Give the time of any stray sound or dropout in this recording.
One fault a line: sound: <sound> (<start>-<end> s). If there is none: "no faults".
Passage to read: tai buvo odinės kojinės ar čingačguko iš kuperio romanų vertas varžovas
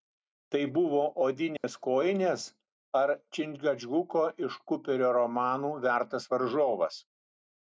sound: dropout (1.6-1.6 s)